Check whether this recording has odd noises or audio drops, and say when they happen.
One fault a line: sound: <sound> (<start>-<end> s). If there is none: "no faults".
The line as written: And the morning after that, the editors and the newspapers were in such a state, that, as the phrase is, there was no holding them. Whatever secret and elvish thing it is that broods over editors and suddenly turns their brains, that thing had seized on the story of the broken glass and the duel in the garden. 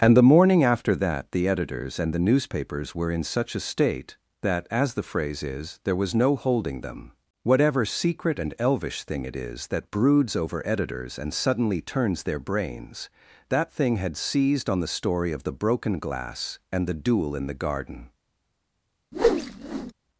sound: whoosh (19.1-19.9 s)